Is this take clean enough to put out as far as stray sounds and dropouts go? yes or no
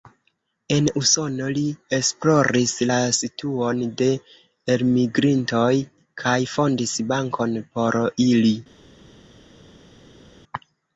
yes